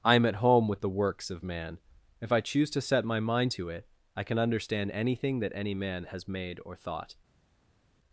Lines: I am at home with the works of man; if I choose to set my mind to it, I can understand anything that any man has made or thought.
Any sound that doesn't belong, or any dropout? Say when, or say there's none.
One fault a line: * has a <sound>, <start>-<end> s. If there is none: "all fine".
all fine